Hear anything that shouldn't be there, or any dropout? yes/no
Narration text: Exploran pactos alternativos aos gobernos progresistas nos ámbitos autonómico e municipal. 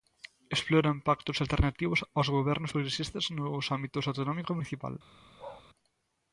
yes